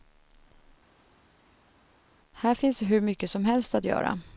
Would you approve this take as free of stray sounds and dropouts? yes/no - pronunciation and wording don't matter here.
yes